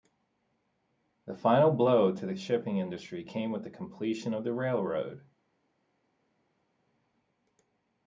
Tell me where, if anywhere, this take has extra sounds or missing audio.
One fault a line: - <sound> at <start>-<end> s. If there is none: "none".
none